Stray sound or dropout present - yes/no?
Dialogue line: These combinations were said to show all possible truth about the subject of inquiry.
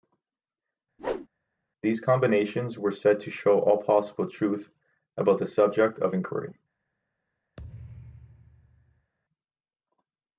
yes